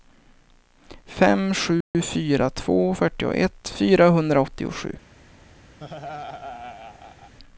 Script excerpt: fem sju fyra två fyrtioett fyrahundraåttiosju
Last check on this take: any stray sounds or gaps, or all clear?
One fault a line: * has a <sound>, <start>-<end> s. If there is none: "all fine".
* has a dropout, 1.8-1.9 s
* has a laugh, 5.8-7.3 s